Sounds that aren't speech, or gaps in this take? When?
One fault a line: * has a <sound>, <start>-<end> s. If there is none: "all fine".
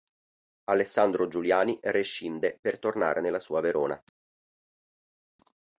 all fine